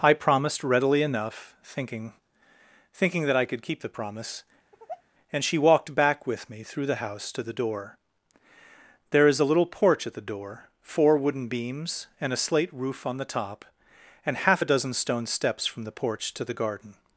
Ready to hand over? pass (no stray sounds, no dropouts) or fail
fail